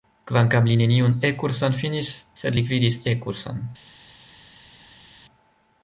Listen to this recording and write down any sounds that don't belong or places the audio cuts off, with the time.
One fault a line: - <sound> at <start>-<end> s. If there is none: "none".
none